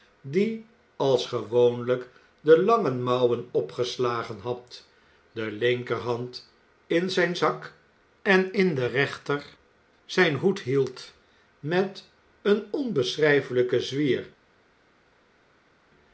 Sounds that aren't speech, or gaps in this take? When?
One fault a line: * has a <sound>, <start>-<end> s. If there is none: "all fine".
all fine